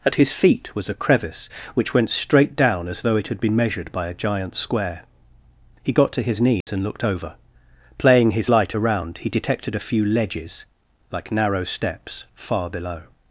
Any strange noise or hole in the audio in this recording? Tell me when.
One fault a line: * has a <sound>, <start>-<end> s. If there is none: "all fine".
* has a dropout, 6.6-6.7 s